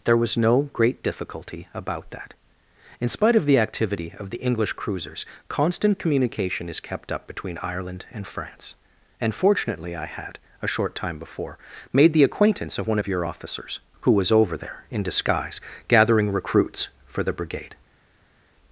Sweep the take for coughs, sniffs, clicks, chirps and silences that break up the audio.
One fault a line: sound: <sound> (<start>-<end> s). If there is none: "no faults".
no faults